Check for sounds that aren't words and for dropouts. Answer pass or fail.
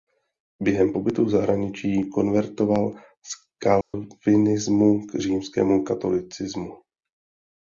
fail